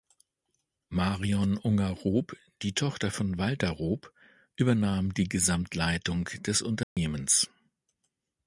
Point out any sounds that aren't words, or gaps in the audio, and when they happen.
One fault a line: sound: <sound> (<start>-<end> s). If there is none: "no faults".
sound: dropout (6.8-7.0 s)